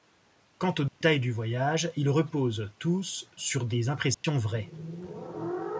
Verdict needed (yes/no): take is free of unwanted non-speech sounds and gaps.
no